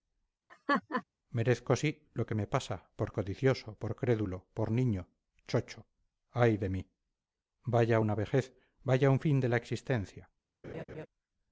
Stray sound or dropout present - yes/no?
yes